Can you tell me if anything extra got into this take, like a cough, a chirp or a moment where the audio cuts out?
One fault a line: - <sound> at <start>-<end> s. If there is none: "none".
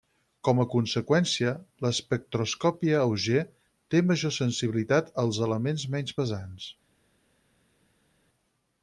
none